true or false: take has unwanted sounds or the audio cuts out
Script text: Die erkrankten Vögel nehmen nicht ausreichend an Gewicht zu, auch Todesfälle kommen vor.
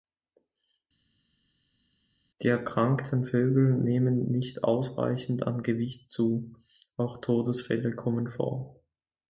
false